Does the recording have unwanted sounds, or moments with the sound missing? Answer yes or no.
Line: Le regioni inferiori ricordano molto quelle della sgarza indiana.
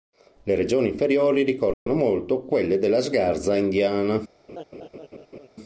yes